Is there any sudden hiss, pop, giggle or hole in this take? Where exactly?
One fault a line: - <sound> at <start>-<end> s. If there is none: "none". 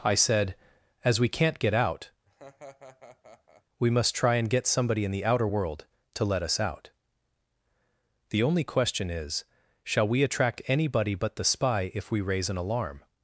- laugh at 2.3-3.6 s